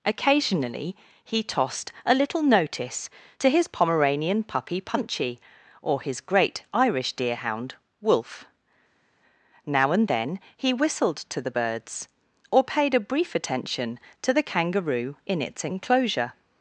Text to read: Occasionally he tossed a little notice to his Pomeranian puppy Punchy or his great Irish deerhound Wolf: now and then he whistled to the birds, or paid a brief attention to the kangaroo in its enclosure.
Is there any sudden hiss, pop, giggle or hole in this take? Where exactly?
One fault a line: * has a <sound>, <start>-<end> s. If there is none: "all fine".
all fine